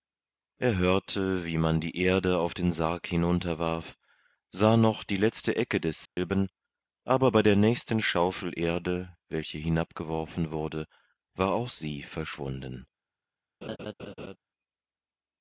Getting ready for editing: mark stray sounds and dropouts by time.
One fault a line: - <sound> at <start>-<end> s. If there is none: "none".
- dropout at 6.1-6.2 s
- laugh at 13.6-14.4 s